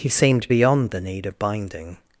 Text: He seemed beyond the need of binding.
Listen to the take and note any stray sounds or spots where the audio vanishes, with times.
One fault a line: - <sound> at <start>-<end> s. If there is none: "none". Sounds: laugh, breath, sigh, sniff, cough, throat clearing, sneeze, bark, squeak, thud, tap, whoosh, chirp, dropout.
none